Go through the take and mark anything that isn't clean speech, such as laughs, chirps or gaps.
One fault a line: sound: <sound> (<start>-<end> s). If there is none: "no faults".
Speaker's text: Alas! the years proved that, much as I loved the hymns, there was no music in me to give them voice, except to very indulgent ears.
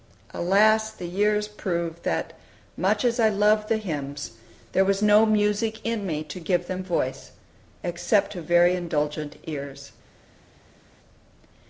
no faults